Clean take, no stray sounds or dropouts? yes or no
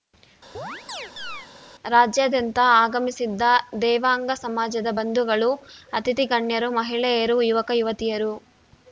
no